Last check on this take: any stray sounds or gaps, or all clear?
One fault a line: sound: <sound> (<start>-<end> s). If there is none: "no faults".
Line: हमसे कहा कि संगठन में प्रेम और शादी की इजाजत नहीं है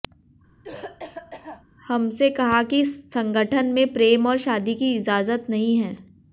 sound: cough (0.6-1.6 s)